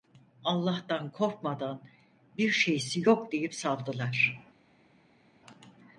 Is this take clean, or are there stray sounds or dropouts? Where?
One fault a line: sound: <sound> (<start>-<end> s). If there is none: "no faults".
no faults